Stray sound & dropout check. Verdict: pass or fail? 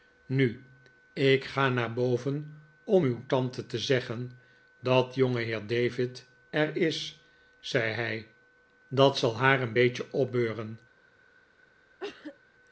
fail